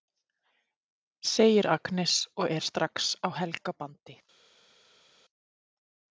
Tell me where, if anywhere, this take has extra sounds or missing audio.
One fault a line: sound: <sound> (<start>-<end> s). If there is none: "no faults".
no faults